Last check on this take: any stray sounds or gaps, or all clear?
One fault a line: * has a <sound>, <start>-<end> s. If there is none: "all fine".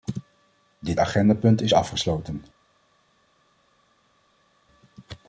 all fine